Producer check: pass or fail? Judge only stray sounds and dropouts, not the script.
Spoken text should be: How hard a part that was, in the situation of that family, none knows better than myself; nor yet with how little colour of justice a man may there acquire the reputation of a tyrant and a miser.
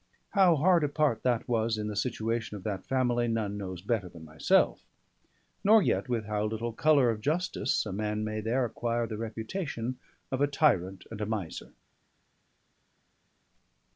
pass